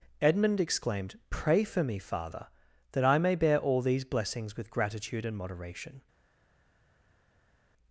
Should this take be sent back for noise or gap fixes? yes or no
no